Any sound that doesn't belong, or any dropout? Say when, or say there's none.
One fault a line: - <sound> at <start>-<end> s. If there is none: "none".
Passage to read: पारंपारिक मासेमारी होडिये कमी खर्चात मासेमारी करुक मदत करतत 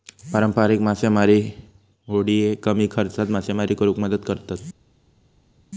none